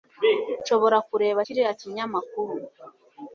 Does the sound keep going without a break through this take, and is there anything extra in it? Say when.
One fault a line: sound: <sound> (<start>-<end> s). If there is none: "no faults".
no faults